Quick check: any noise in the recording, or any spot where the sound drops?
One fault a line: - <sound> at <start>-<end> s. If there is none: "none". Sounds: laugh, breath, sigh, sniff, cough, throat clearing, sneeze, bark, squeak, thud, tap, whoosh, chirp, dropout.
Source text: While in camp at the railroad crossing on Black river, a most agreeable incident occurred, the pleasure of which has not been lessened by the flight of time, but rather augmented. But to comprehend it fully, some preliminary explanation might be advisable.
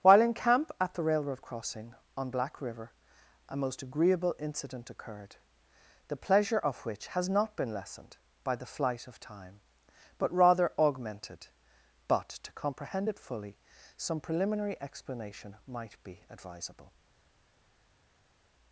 none